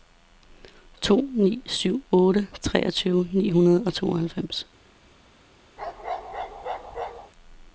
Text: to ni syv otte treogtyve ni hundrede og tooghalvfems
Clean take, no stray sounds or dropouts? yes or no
no